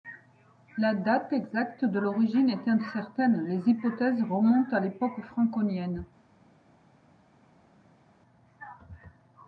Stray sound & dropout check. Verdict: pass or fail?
pass